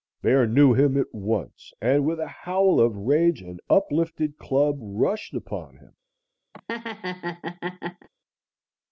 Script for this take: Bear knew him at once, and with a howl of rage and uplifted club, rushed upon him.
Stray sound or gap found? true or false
true